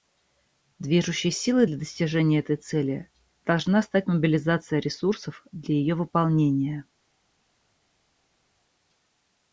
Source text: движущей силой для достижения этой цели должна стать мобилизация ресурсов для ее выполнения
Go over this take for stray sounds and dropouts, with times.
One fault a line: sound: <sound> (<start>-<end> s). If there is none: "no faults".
no faults